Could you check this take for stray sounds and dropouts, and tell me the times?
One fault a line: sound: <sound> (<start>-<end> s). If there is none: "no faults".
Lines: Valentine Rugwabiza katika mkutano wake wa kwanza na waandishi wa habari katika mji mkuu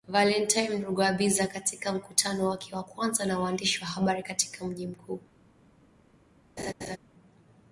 sound: laugh (6.6-7.0 s)